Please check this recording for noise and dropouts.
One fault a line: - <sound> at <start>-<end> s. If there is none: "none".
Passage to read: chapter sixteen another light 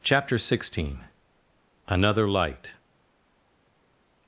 none